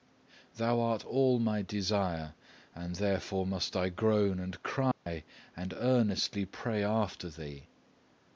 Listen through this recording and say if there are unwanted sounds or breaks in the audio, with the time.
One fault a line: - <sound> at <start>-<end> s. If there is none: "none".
- dropout at 4.9-5.1 s